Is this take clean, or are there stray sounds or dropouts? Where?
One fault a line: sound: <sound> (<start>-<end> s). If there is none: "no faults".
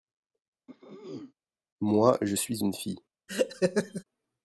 sound: throat clearing (0.7-1.3 s)
sound: laugh (3.3-4.0 s)